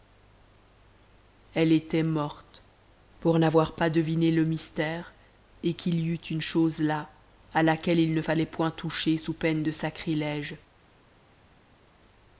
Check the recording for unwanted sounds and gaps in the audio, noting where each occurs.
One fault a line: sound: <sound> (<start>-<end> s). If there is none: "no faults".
no faults